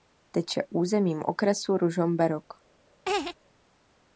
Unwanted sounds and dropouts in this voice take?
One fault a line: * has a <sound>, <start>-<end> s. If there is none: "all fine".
* has a laugh, 3.1-3.4 s